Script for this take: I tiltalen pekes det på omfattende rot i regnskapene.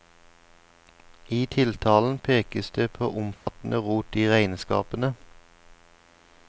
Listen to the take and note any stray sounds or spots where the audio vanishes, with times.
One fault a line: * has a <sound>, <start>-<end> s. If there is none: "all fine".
* has a dropout, 3.3-3.5 s